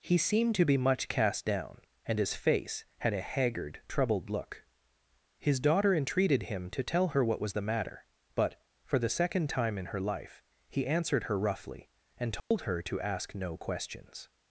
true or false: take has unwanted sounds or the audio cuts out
true